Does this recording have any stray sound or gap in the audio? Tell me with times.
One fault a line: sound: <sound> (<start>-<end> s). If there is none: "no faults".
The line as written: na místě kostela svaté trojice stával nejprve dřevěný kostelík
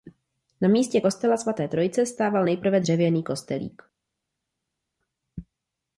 no faults